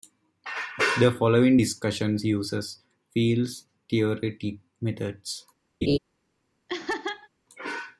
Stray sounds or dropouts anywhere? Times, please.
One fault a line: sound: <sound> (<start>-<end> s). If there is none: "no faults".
sound: laugh (5.8-6.0 s)
sound: laugh (6.7-7.3 s)